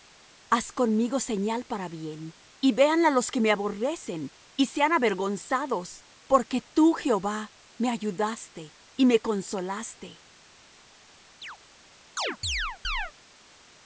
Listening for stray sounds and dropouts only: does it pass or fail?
fail